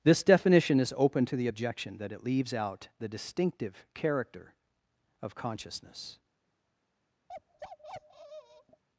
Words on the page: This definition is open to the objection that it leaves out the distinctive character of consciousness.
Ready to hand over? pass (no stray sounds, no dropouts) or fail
fail